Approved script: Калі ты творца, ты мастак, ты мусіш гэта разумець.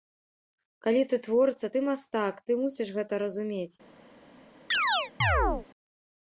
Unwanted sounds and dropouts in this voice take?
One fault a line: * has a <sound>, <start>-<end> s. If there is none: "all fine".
* has a chirp, 4.7-5.7 s